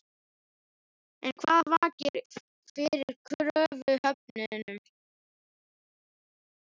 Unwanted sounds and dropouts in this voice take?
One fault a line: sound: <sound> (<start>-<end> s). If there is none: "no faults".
no faults